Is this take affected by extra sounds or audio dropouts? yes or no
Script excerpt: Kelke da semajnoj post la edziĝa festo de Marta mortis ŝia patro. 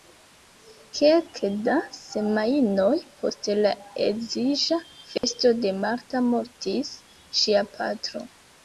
yes